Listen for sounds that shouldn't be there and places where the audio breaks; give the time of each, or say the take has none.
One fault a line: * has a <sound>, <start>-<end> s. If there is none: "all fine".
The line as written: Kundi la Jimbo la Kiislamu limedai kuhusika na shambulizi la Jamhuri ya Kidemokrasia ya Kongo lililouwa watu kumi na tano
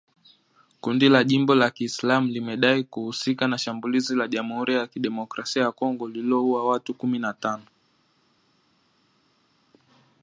all fine